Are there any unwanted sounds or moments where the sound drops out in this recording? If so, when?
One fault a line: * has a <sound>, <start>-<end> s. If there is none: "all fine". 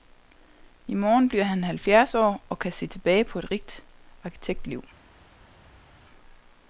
all fine